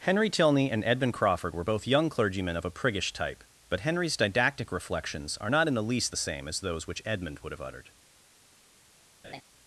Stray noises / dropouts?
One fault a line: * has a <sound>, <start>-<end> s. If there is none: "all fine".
* has a laugh, 9.2-9.4 s